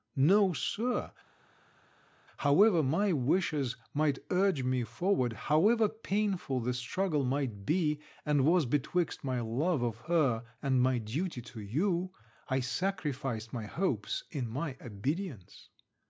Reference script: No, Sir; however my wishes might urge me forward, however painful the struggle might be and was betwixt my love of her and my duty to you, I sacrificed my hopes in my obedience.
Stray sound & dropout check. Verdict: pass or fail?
pass